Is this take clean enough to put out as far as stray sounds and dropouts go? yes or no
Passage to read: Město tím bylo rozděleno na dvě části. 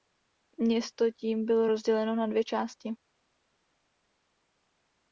yes